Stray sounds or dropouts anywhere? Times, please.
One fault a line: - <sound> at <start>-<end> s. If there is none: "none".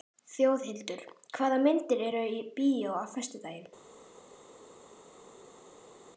none